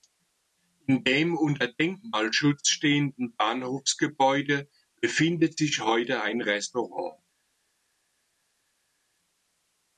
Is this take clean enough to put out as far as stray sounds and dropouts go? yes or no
yes